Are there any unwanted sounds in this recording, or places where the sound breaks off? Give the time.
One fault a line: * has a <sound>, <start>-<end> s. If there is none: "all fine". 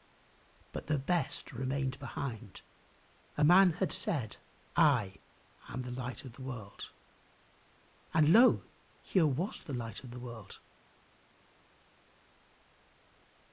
all fine